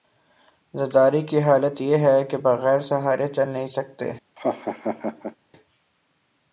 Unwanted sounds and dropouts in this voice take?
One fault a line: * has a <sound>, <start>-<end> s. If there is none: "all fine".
* has a laugh, 4.4-5.4 s